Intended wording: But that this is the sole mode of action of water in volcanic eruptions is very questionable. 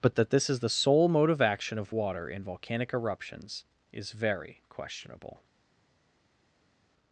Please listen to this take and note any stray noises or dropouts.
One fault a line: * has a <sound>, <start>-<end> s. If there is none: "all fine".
all fine